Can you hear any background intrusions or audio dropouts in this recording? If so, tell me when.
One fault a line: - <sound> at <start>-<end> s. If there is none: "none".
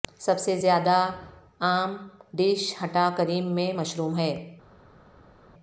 none